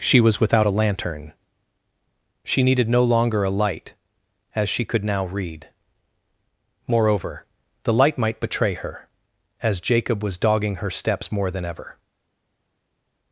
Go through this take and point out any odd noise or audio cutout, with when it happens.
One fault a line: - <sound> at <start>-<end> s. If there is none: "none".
none